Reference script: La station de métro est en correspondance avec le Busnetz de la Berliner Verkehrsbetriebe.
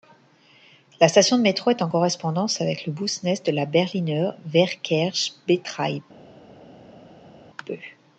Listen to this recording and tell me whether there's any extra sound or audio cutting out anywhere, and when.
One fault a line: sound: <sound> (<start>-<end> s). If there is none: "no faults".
no faults